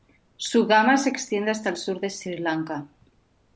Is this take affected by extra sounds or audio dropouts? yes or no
no